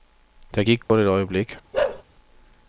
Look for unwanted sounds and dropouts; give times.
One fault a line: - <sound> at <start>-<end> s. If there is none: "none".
- dropout at 0.8-0.9 s
- bark at 1.7-2.0 s